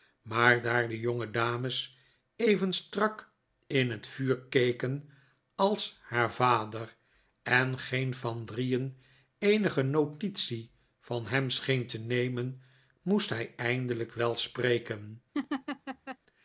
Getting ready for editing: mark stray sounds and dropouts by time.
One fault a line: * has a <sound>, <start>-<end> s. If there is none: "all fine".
* has a laugh, 15.3-16.2 s